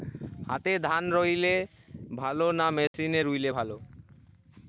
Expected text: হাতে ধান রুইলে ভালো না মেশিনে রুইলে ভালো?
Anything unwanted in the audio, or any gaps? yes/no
yes